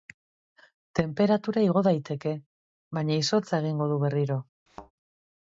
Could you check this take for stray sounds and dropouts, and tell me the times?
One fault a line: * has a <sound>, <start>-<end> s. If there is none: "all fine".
* has a thud, 4.7-4.9 s